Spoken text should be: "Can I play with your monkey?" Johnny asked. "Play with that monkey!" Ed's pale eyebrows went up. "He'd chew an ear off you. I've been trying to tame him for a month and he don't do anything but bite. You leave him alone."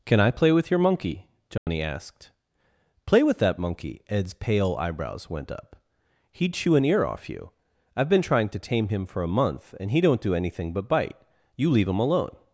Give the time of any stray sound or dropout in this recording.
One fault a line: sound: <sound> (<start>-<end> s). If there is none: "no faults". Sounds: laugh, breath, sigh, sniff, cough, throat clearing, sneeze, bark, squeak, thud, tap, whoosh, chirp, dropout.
sound: dropout (1.6-1.7 s)